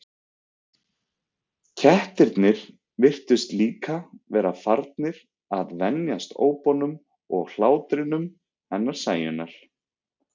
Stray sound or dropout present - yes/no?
no